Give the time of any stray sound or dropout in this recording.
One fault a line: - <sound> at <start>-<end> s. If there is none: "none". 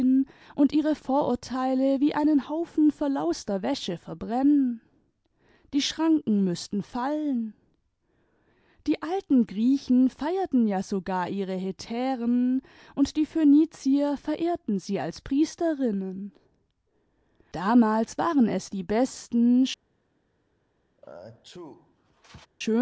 - sneeze at 21.0-22.5 s